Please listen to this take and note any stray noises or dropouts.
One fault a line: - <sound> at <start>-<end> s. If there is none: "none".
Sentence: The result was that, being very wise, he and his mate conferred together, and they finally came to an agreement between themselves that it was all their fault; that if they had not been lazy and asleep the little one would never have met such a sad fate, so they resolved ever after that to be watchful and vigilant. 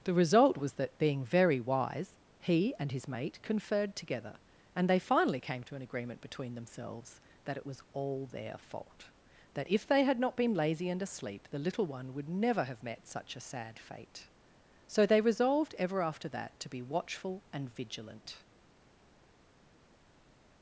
none